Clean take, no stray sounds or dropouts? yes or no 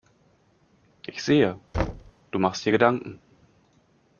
no